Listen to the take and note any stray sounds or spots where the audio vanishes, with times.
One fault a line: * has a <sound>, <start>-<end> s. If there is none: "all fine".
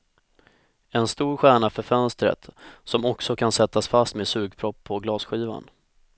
all fine